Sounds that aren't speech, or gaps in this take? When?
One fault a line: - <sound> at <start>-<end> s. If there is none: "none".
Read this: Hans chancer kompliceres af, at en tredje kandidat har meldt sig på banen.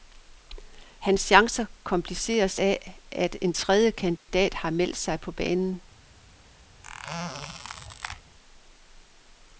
- dropout at 4.2-4.3 s
- squeak at 6.8-8.2 s